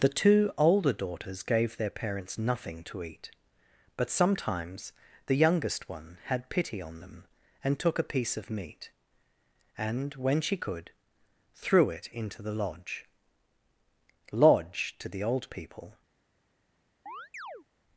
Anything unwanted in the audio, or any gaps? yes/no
yes